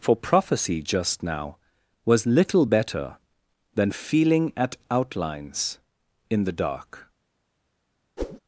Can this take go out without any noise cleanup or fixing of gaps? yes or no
no